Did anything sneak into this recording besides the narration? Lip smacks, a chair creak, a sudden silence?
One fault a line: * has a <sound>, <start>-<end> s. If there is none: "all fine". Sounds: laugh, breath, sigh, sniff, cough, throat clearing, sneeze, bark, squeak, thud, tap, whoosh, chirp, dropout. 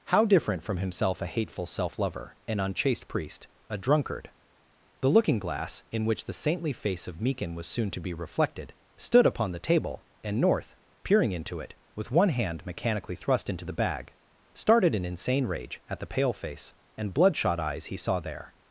all fine